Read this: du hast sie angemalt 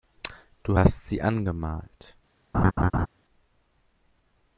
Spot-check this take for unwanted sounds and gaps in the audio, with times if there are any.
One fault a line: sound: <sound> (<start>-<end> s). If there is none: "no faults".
sound: laugh (2.5-3.1 s)